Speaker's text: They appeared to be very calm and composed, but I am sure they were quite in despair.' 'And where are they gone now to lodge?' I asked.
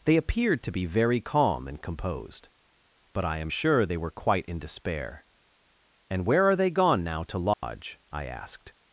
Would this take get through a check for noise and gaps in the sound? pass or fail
fail